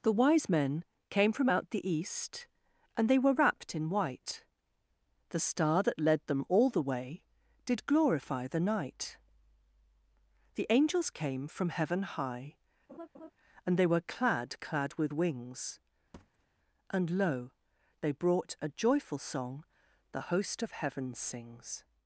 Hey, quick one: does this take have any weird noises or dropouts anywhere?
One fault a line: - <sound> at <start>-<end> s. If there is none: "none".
- laugh at 12.9-13.3 s
- thud at 16.1-16.5 s